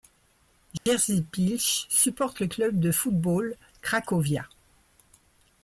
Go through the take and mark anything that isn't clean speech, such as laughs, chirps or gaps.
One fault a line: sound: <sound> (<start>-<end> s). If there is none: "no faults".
sound: dropout (0.8-0.9 s)